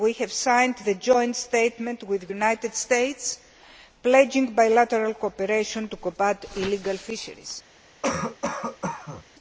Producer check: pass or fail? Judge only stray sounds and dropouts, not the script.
fail